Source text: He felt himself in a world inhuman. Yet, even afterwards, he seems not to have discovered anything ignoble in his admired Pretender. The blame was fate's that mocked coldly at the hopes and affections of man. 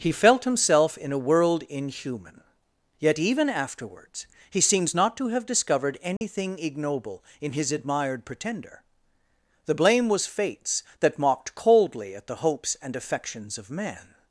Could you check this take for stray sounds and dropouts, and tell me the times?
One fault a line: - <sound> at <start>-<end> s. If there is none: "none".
- dropout at 6.2-6.2 s